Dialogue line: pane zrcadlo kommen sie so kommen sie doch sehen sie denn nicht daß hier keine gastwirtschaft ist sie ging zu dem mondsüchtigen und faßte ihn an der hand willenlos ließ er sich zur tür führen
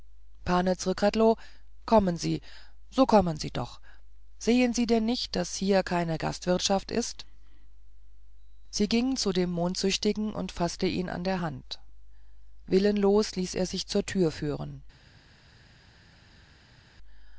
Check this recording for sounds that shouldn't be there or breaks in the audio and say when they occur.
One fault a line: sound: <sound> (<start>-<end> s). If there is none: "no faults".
no faults